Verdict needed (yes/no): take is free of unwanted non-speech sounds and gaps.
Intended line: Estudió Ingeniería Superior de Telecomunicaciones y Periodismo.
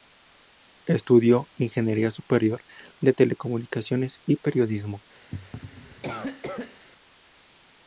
no